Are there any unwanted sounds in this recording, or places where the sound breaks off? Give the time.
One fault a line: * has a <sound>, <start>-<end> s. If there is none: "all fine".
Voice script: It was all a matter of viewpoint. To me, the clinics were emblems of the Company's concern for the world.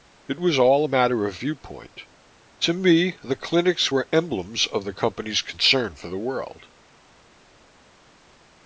all fine